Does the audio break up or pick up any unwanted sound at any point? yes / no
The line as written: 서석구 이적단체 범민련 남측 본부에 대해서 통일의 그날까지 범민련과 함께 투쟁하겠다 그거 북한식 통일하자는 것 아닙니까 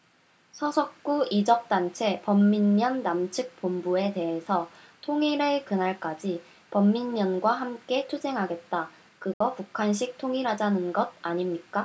yes